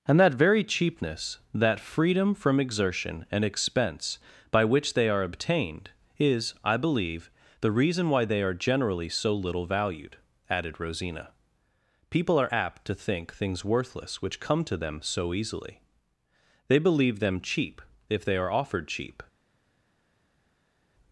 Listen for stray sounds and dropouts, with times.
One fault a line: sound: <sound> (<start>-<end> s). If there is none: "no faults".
no faults